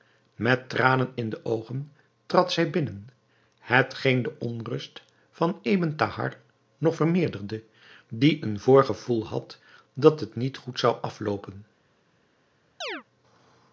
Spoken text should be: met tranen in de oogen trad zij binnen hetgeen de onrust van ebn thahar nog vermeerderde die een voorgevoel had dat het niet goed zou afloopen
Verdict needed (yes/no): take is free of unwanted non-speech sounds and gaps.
no